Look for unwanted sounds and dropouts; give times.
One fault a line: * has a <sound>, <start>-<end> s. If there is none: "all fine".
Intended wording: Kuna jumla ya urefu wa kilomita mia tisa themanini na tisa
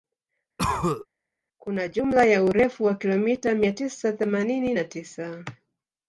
* has a cough, 0.6-1.1 s